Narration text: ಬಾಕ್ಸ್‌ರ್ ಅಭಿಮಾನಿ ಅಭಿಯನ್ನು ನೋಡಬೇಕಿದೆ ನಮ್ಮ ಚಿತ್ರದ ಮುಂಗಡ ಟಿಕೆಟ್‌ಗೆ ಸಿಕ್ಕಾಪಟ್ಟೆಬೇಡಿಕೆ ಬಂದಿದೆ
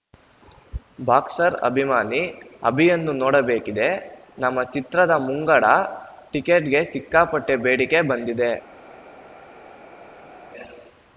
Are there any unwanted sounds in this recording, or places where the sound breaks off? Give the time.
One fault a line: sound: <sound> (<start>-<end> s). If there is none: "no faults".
no faults